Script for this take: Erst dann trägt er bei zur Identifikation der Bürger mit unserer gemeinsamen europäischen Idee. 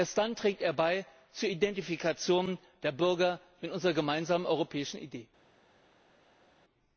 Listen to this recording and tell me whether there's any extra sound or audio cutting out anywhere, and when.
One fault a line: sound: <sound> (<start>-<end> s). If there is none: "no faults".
no faults